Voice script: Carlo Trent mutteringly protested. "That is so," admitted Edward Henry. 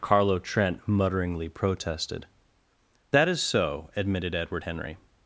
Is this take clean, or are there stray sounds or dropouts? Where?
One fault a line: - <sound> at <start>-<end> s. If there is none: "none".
none